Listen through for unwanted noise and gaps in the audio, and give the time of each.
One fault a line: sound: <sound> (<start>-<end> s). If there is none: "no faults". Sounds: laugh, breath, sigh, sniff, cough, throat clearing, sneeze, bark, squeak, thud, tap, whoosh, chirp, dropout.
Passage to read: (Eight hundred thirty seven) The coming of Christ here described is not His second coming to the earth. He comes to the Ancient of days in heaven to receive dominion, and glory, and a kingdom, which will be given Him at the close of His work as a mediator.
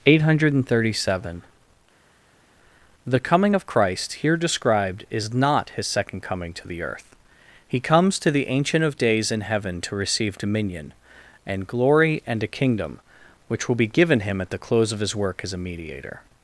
no faults